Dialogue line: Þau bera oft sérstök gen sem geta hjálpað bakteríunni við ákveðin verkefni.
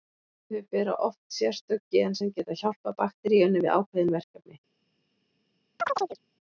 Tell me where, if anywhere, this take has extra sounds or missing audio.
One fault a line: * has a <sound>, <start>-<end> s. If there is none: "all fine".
* has a chirp, 5.8-6.2 s